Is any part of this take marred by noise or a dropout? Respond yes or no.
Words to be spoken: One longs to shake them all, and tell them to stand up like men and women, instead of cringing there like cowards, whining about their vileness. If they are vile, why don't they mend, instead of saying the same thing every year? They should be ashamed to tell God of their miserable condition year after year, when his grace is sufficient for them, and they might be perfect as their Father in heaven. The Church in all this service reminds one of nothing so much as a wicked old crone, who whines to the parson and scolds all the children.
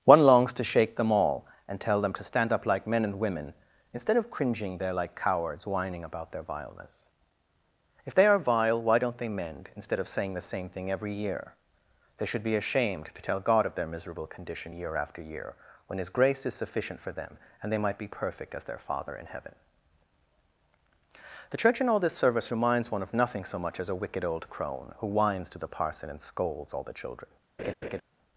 yes